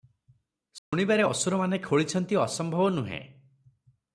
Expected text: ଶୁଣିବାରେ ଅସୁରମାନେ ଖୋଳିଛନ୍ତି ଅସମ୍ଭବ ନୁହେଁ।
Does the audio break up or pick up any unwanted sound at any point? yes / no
yes